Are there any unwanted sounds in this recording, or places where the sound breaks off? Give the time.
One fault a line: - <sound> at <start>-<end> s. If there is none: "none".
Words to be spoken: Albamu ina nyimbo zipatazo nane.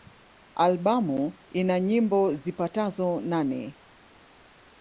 none